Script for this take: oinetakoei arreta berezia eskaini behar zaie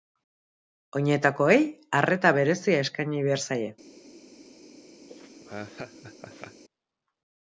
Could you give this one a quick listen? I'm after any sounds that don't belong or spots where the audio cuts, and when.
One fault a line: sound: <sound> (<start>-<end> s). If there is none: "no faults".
sound: laugh (5.1-6.6 s)